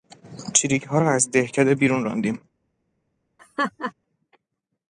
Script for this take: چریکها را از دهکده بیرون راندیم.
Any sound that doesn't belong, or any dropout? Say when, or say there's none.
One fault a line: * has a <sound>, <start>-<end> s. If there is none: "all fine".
* has a laugh, 3.4-3.9 s